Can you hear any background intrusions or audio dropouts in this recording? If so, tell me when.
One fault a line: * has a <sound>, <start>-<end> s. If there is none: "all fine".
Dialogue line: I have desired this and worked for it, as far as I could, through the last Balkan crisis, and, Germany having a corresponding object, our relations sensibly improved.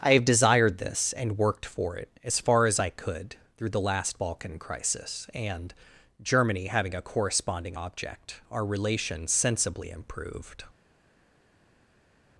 all fine